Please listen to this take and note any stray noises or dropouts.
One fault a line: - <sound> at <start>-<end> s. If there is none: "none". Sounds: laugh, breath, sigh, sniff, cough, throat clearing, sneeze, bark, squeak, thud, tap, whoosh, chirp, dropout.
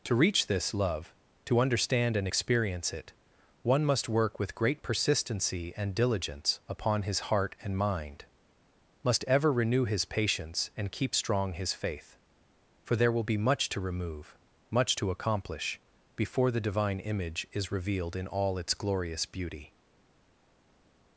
none